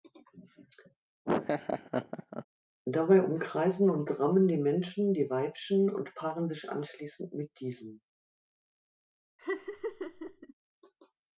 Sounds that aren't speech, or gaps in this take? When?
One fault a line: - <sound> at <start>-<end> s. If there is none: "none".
- laugh at 1.2-2.4 s
- laugh at 9.4-10.5 s